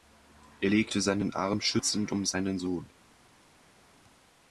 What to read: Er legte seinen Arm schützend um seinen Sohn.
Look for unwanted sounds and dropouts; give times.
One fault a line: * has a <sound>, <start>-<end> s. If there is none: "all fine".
all fine